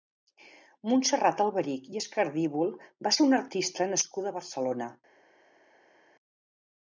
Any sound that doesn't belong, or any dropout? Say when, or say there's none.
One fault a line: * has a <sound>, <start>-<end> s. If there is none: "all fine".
all fine